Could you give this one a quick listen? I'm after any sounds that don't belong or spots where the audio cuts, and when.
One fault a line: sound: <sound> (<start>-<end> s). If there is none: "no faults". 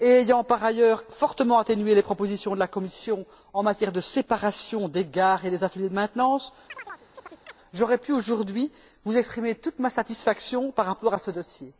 sound: chirp (6.7-7.6 s)